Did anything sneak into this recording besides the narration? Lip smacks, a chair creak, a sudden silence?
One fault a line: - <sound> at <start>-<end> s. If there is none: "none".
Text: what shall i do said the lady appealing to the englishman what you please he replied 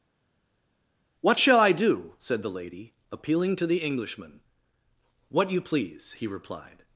none